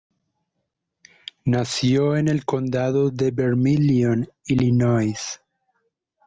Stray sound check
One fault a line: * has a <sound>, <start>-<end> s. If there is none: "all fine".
all fine